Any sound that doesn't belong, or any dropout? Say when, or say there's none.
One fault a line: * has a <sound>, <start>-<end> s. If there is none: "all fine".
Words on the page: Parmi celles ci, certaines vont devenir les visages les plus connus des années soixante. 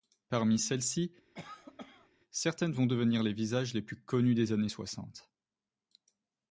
* has a cough, 1.3-2.1 s